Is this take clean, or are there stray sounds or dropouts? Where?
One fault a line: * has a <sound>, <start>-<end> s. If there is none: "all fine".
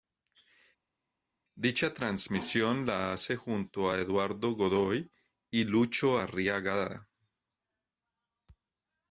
all fine